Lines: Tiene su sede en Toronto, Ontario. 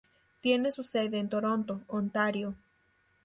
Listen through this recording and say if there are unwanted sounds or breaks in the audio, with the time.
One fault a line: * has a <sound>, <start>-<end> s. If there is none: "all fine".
all fine